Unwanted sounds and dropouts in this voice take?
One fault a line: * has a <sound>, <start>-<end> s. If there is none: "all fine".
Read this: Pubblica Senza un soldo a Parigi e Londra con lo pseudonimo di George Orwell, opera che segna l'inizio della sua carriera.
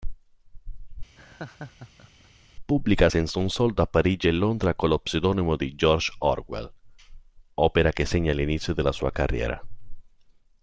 * has a laugh, 1.2-2.5 s